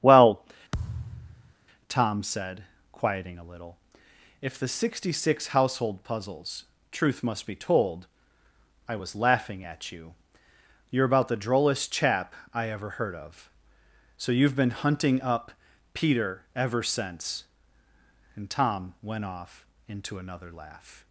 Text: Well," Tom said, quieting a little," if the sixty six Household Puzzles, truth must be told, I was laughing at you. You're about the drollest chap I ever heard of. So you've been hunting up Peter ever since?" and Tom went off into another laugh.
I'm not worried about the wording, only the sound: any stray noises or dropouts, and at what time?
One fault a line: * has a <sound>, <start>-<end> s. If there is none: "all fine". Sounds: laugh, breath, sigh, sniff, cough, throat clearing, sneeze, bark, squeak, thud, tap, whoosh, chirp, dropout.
* has a thud, 0.7-1.5 s